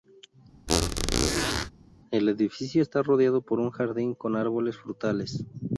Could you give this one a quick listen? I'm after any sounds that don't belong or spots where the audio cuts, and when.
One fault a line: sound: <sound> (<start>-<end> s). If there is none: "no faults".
sound: squeak (0.7-1.7 s)